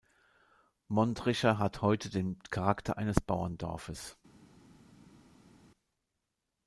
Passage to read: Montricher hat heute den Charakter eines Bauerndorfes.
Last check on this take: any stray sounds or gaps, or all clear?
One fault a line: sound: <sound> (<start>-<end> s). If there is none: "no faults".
no faults